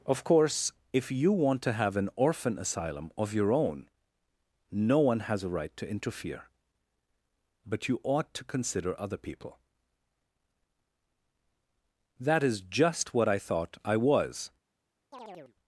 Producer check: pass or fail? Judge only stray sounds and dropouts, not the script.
fail